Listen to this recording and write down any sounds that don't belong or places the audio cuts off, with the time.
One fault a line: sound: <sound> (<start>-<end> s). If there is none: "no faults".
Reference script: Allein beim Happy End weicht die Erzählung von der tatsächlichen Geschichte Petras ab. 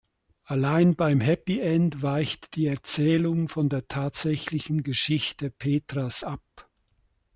no faults